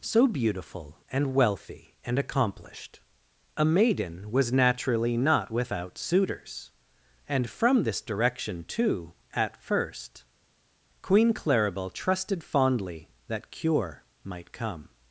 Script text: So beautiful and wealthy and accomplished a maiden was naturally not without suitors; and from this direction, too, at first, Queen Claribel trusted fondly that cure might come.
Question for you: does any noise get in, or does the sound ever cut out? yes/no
no